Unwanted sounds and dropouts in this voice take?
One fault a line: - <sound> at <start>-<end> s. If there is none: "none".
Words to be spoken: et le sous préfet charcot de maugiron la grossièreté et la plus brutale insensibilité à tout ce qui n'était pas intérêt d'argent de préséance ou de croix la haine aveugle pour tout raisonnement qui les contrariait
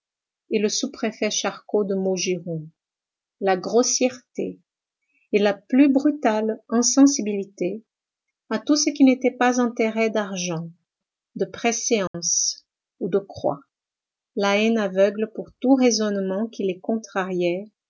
- dropout at 12.1-12.1 s